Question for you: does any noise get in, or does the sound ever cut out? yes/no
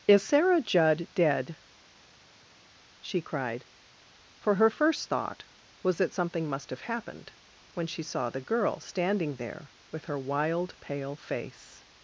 no